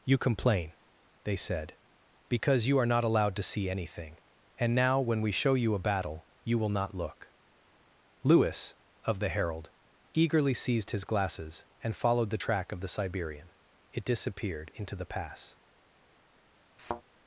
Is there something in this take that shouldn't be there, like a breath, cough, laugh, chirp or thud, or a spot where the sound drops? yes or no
yes